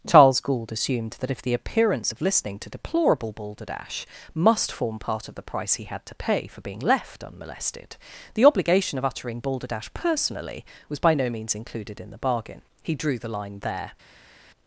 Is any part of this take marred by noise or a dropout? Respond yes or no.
no